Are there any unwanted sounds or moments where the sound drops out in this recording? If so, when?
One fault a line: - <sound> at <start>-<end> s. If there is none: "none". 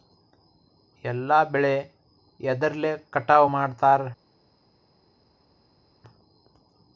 none